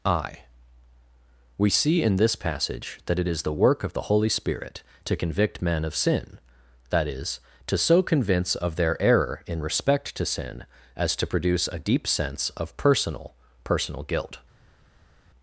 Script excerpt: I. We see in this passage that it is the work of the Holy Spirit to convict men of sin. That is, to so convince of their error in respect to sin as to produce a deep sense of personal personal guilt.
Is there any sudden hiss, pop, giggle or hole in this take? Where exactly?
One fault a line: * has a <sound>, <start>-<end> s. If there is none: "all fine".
all fine